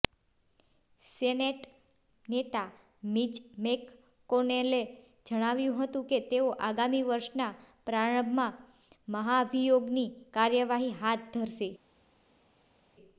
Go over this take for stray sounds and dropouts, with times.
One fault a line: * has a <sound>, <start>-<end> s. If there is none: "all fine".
all fine